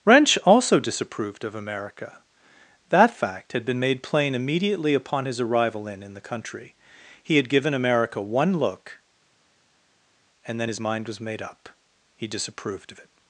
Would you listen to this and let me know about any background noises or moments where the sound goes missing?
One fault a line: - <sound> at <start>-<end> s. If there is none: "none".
none